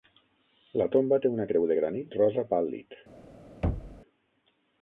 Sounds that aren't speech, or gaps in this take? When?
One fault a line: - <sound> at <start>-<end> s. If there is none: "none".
- thud at 3.6-4.0 s